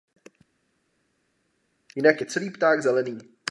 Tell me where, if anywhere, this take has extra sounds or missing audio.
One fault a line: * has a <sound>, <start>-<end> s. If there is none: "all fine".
all fine